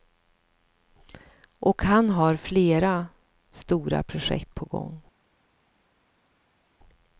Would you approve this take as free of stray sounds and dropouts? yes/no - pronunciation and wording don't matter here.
yes